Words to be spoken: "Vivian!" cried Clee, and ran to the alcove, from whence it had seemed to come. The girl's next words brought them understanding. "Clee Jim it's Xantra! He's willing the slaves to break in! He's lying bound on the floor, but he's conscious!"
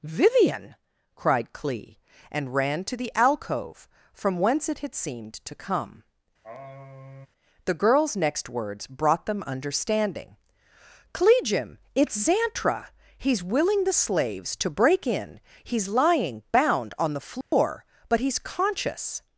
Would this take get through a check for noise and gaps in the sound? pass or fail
fail